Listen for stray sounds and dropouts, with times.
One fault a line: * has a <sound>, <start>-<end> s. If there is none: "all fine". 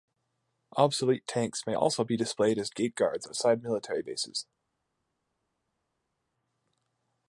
all fine